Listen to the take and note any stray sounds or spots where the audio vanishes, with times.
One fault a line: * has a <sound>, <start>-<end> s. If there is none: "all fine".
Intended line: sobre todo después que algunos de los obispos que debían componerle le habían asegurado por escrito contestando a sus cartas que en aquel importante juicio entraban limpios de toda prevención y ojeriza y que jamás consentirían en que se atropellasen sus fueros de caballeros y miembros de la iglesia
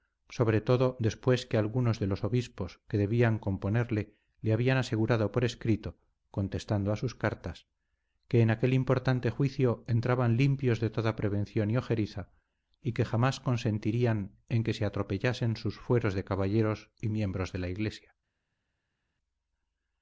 all fine